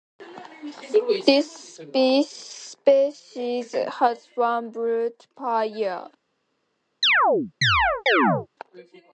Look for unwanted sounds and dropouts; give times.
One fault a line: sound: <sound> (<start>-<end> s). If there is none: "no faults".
sound: chirp (7.0-8.5 s)